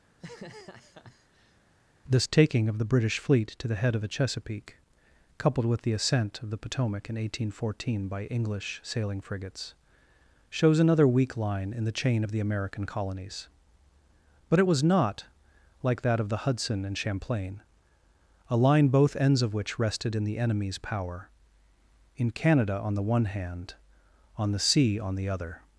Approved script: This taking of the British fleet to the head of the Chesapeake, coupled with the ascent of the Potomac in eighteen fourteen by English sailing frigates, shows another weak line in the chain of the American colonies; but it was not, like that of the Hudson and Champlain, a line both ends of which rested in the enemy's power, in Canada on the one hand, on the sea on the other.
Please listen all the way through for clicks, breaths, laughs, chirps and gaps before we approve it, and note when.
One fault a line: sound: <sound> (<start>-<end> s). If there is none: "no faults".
sound: laugh (0.1-1.6 s)